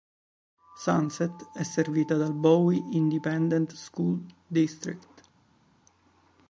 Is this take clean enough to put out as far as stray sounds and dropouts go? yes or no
yes